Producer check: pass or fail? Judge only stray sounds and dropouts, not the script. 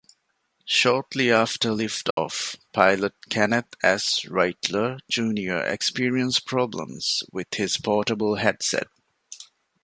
fail